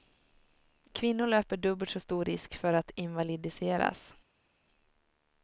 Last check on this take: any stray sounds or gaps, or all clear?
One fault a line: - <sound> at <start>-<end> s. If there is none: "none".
none